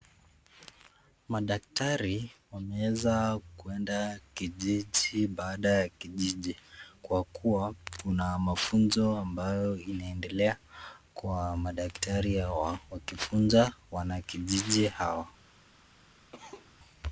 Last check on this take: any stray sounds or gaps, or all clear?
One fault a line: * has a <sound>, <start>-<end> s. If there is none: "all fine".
* has a cough, 16.3-16.7 s